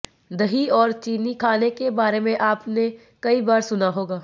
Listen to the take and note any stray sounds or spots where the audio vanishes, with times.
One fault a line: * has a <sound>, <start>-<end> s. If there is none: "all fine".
all fine